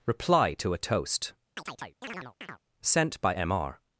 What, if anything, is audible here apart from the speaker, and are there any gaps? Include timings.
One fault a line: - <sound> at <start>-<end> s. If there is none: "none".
- chirp at 1.6-2.6 s